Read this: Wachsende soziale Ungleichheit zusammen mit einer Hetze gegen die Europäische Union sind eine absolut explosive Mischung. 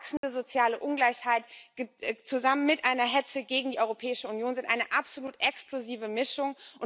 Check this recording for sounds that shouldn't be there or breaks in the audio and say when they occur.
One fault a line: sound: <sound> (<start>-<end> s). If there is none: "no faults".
sound: dropout (0.2-0.2 s)